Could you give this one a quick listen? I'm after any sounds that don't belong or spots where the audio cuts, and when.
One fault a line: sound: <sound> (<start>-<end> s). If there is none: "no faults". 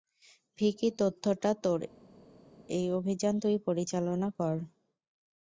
no faults